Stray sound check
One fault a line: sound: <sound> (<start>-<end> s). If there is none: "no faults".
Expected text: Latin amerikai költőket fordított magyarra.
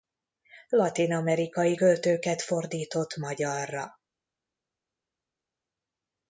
no faults